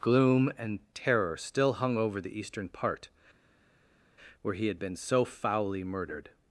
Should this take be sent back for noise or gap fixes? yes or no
no